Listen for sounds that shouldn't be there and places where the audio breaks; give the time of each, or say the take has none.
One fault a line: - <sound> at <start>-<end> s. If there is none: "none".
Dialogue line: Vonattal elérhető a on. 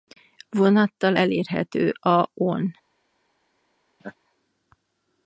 - laugh at 4.0-4.1 s